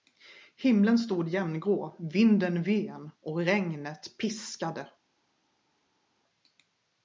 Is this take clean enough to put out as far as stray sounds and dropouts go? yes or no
yes